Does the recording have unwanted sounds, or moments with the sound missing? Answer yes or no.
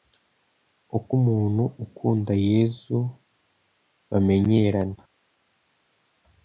no